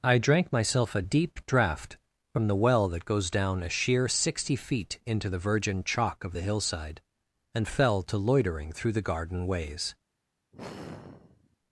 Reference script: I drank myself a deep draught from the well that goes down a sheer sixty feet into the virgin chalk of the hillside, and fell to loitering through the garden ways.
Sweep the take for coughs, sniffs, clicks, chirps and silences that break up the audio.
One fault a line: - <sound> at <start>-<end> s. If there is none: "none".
- sigh at 10.5-11.6 s